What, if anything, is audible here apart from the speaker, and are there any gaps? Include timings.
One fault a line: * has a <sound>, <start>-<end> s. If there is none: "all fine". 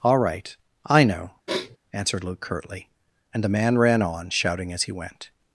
* has a sniff, 1.5-1.8 s